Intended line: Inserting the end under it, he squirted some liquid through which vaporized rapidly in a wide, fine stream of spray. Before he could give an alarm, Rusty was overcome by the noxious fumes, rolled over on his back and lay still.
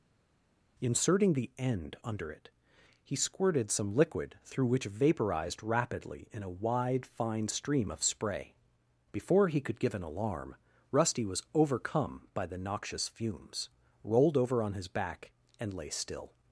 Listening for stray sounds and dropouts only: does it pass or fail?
pass